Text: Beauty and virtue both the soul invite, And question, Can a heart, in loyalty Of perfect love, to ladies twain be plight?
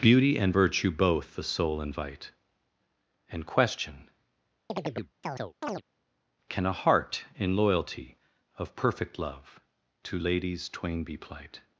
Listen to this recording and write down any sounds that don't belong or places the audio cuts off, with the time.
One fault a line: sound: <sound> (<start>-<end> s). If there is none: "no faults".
sound: chirp (4.7-5.8 s)